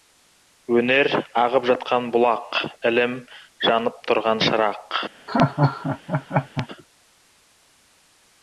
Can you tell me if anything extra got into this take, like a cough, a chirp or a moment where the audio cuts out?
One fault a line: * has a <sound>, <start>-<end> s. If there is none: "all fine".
* has a laugh, 5.3-6.7 s